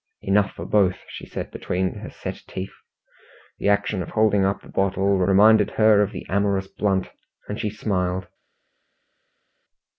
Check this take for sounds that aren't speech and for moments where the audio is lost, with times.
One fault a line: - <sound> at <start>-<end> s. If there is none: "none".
none